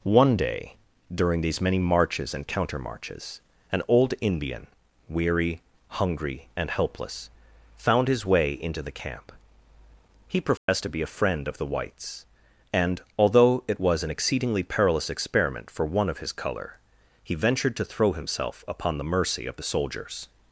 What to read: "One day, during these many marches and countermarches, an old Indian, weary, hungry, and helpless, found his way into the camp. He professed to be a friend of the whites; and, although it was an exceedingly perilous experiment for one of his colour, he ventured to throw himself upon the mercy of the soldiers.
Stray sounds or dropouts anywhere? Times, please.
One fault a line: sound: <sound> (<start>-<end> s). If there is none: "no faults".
sound: dropout (10.6-10.7 s)